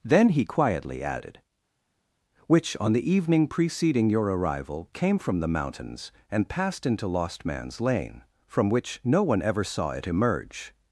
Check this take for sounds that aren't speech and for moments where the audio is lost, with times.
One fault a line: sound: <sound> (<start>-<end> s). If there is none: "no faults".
no faults